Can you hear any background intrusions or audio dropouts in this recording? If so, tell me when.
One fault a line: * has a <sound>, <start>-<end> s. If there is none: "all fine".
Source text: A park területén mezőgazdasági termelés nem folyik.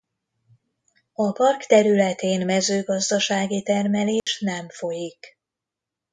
* has a dropout, 4.2-4.3 s